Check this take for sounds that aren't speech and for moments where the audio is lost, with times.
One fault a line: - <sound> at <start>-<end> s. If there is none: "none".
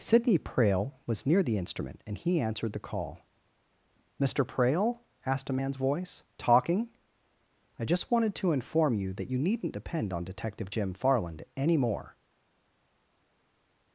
none